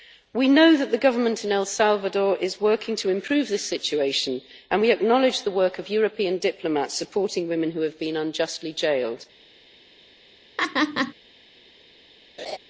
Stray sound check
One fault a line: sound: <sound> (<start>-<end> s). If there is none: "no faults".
sound: laugh (10.6-11.1 s)
sound: laugh (12.4-12.6 s)